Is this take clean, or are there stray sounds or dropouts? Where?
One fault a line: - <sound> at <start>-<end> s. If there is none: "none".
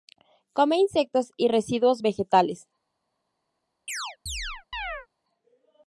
- chirp at 3.9-5.1 s